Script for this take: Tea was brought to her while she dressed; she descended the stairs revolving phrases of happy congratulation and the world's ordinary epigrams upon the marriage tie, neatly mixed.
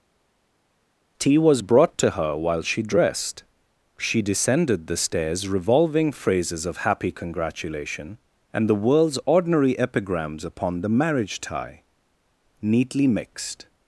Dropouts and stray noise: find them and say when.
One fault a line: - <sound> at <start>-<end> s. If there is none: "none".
none